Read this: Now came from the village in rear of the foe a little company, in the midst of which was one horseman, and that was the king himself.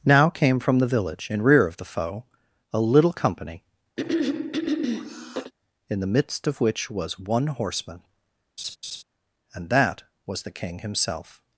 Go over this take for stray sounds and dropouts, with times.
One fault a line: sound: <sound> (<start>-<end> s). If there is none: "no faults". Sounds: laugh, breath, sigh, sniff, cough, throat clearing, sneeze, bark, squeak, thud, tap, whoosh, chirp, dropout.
sound: throat clearing (4.0-5.5 s)
sound: laugh (8.6-9.0 s)